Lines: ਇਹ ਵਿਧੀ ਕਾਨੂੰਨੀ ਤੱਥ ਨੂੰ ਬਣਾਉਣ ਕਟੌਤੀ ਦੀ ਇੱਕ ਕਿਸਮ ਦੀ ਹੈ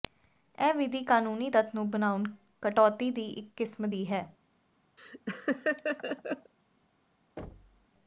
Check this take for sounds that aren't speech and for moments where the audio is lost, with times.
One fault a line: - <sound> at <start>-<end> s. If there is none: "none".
- laugh at 5.0-6.5 s
- thud at 7.4-7.9 s